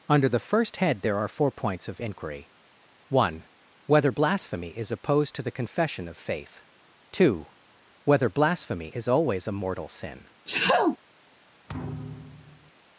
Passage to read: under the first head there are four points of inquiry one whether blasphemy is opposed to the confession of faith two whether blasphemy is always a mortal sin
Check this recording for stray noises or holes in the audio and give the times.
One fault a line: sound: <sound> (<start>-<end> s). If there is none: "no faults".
sound: sneeze (10.5-11.0 s)
sound: thud (11.7-12.7 s)